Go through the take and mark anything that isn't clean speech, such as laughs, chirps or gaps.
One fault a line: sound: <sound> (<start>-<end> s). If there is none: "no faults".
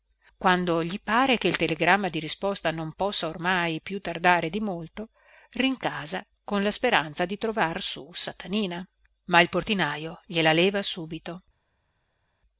no faults